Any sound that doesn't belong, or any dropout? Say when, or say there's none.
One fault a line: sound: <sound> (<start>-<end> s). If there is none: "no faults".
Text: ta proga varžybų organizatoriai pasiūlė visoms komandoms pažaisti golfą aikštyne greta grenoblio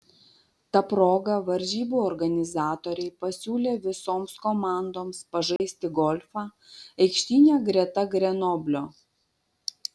sound: dropout (5.6-5.6 s)